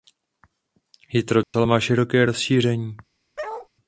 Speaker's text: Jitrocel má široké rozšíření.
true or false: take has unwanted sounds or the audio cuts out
true